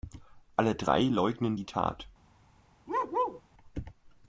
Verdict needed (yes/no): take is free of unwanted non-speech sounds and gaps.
no